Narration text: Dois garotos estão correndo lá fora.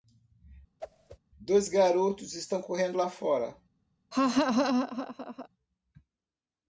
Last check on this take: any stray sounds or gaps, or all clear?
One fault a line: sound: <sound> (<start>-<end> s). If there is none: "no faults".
sound: whoosh (0.8-1.2 s)
sound: laugh (4.1-5.5 s)